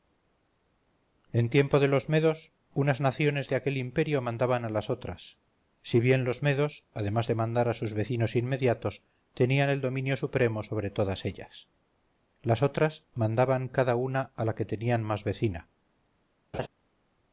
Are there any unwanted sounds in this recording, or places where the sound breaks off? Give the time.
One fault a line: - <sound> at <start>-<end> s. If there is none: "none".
- laugh at 16.5-16.7 s